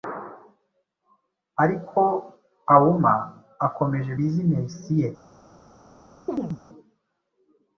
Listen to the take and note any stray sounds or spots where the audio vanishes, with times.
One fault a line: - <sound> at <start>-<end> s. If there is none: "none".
- chirp at 6.3-6.6 s